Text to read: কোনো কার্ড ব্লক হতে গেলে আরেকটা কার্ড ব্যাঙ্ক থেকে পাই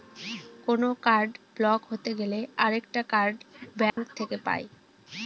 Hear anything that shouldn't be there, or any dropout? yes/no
yes